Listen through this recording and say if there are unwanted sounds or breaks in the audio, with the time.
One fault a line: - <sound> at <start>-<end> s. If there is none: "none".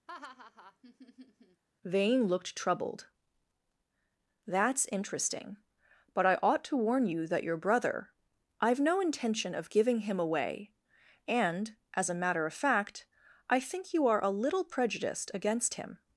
- laugh at 0.1-1.6 s